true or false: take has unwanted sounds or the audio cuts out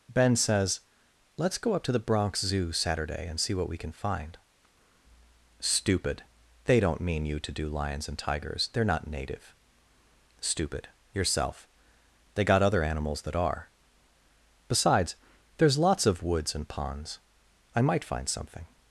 false